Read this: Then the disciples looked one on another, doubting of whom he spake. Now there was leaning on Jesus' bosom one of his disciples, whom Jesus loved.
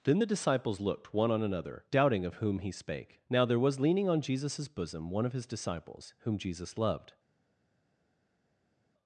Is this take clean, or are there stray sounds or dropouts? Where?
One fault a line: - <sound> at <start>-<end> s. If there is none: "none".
none